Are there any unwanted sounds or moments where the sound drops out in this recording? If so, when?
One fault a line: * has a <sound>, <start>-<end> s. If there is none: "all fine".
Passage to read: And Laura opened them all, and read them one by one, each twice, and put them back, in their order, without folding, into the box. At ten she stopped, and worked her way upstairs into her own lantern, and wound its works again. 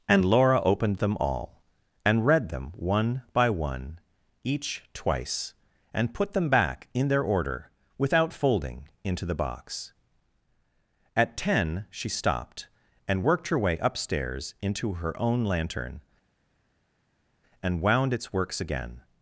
all fine